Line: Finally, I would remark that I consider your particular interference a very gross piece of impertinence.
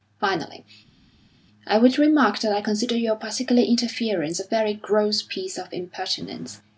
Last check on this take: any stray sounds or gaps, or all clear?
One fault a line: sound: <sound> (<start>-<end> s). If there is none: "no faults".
no faults